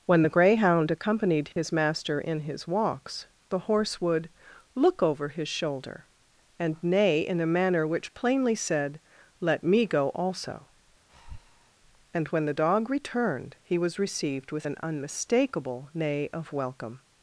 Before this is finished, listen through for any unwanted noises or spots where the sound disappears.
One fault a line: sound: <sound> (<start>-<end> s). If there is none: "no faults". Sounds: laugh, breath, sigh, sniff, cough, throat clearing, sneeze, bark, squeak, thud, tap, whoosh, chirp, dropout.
sound: dropout (1.5-1.6 s)
sound: breath (11.1-11.7 s)